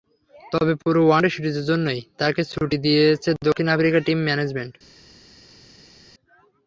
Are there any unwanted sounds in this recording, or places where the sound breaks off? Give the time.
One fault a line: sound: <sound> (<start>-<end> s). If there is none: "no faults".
no faults